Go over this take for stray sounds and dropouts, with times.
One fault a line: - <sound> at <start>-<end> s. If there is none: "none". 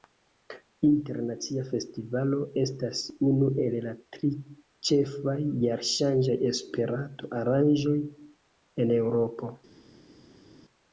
none